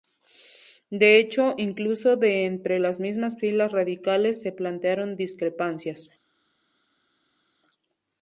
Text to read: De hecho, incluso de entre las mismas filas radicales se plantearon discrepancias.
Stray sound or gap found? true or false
false